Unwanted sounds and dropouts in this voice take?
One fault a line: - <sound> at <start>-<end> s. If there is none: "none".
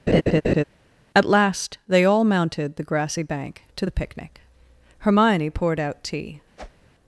- laugh at 0.1-0.6 s
- whoosh at 6.6-6.9 s